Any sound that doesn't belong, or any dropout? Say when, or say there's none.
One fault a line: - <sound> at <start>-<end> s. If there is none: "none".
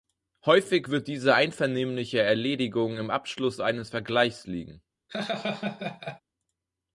- laugh at 5.1-6.2 s